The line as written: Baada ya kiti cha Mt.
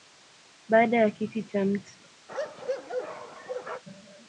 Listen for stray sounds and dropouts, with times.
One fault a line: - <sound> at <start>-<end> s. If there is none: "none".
- bark at 2.3-3.8 s